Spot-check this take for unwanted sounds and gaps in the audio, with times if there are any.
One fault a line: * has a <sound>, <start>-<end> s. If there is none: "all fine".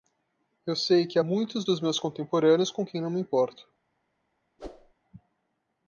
* has a whoosh, 4.6-4.9 s